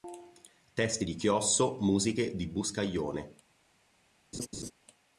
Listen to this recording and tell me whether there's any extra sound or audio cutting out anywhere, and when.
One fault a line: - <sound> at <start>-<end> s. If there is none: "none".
- laugh at 4.3-4.7 s